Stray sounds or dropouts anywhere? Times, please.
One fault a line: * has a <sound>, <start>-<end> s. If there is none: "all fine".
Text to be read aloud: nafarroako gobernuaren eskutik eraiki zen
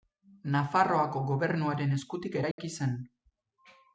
* has a dropout, 2.5-2.6 s